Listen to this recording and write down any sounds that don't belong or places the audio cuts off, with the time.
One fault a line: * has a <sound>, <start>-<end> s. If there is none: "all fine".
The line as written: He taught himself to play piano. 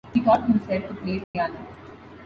* has a dropout, 1.2-1.3 s